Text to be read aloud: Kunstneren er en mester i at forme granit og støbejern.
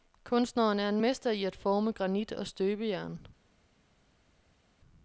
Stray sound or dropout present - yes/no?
no